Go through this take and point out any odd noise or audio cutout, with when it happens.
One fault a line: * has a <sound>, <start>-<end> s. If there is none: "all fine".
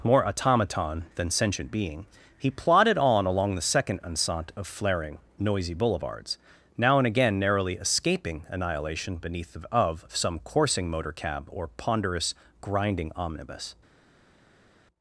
all fine